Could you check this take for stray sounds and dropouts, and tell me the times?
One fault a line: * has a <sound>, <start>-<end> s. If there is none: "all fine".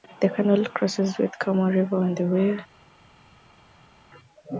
all fine